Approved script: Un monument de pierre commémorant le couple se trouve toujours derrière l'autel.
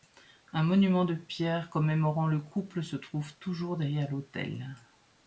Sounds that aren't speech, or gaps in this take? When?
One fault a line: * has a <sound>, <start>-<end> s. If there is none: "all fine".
all fine